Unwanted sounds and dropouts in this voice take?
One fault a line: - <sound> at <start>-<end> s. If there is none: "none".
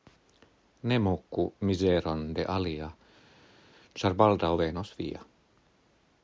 none